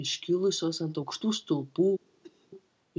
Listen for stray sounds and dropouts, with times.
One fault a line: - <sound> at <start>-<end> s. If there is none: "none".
- cough at 2.2-2.5 s